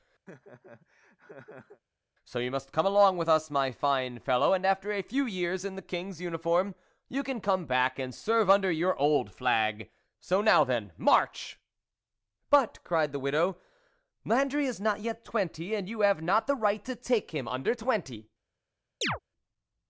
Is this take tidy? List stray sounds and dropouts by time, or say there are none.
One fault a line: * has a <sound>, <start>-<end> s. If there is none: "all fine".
* has a laugh, 0.3-1.8 s
* has a chirp, 19.0-19.2 s